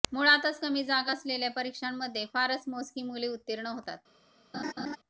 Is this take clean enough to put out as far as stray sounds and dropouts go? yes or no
no